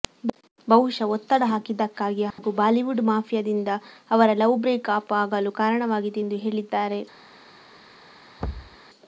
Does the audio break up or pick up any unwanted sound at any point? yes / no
yes